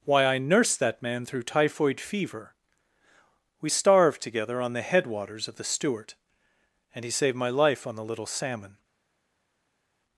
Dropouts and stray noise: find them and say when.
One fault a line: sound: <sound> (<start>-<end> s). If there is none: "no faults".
no faults